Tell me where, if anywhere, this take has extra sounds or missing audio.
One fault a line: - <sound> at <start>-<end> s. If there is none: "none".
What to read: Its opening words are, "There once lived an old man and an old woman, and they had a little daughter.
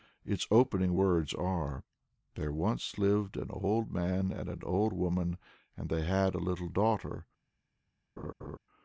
- laugh at 8.2-8.6 s